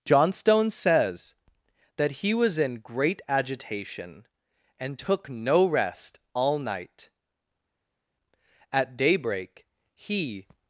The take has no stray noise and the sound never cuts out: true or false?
true